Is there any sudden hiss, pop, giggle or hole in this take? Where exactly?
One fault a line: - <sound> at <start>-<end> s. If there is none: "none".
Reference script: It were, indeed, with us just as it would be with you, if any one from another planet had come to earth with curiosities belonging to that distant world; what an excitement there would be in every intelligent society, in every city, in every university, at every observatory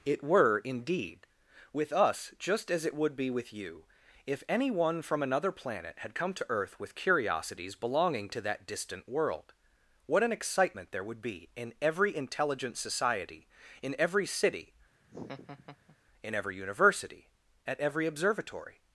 - laugh at 15.0-16.0 s